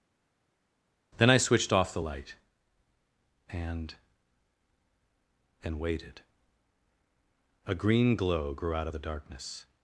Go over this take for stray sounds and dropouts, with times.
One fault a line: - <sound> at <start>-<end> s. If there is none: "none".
none